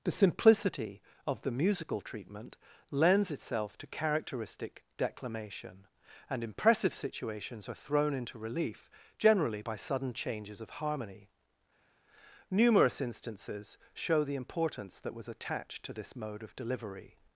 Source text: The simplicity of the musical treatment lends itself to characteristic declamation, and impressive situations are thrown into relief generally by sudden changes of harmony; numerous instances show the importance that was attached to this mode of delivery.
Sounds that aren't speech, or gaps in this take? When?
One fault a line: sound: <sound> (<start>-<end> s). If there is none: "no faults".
no faults